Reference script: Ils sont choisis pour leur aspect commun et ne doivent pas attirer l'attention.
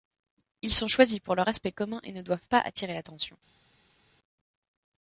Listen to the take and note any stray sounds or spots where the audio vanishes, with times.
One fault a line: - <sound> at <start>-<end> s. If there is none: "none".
none